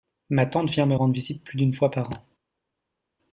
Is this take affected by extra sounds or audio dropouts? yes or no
no